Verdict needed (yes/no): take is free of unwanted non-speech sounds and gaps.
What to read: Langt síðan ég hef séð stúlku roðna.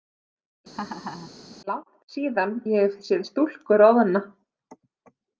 no